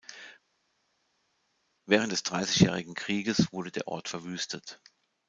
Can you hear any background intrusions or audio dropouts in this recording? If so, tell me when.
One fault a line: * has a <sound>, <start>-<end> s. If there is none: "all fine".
all fine